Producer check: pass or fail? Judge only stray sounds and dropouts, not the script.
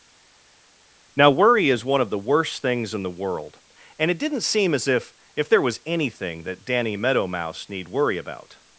pass